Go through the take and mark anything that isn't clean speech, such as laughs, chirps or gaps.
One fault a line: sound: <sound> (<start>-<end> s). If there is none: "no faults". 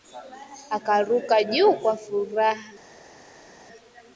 no faults